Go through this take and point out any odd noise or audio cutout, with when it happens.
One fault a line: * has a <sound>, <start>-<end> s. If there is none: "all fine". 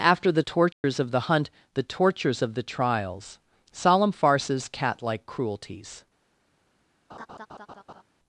* has a dropout, 0.7-0.8 s
* has a laugh, 7.1-8.0 s